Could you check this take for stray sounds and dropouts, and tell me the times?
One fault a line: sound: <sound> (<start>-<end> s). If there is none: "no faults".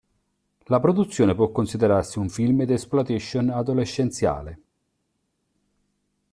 no faults